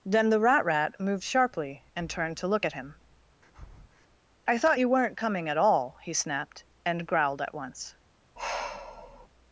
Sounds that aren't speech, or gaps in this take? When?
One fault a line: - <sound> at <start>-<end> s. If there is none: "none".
- breath at 3.4-4.1 s
- sigh at 8.4-9.3 s